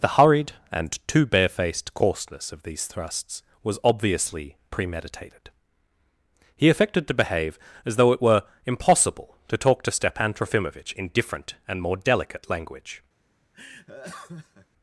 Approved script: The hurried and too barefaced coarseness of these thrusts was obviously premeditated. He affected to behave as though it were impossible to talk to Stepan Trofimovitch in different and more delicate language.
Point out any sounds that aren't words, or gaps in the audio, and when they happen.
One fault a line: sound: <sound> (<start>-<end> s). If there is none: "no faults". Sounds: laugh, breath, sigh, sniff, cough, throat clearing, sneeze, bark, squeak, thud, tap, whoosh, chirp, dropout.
sound: laugh (13.5-14.7 s)